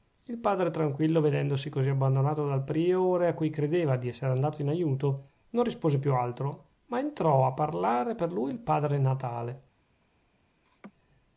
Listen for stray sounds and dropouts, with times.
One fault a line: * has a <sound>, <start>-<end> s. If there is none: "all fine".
* has a laugh, 10.6-10.9 s